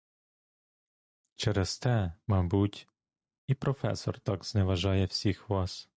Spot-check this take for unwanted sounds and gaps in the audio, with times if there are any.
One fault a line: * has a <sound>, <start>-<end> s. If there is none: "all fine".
all fine